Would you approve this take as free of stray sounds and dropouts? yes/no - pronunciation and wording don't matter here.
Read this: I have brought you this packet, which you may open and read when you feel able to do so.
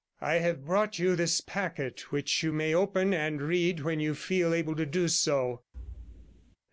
no